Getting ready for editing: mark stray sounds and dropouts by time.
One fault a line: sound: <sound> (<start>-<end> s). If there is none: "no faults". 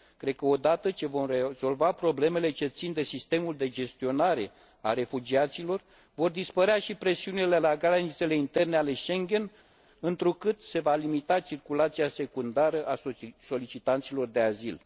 no faults